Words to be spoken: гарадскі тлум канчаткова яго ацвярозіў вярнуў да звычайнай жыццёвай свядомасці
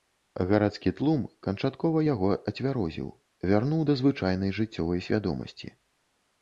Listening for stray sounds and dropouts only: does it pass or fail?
pass